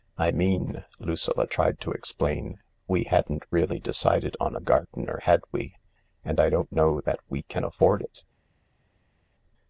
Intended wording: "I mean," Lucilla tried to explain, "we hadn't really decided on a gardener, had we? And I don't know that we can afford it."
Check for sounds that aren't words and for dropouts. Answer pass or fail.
pass